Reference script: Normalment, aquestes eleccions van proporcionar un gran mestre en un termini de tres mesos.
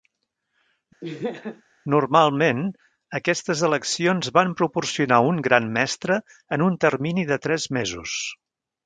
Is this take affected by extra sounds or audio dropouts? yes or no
yes